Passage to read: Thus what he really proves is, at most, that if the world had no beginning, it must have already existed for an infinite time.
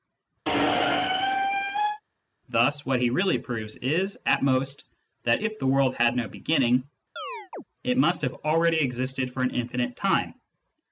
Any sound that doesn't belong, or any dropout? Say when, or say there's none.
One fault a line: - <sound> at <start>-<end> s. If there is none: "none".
- squeak at 0.5-2.0 s
- chirp at 7.2-7.6 s